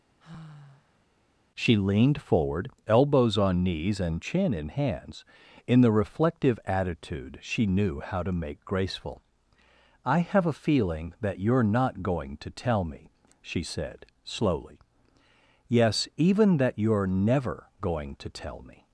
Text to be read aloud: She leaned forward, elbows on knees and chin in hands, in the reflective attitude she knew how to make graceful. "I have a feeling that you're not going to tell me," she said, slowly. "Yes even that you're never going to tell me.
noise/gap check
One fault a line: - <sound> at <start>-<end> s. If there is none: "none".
- sigh at 0.2-1.1 s